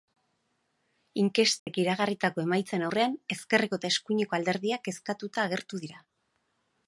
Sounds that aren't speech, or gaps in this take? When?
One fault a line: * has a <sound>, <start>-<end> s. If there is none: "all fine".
* has a dropout, 1.6-1.7 s